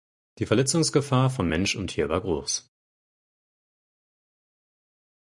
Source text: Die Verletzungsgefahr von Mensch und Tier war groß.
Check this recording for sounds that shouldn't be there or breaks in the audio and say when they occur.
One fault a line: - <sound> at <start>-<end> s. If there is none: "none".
none